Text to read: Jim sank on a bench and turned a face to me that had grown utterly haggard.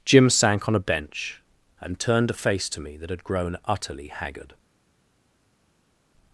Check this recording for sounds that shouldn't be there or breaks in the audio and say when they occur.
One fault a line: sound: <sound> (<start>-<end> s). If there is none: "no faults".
no faults